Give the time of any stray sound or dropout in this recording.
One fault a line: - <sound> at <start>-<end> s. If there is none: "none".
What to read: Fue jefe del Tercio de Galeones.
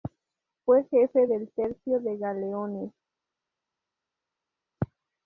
none